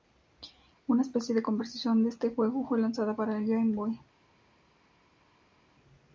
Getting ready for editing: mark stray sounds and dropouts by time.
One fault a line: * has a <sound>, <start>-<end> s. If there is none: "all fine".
all fine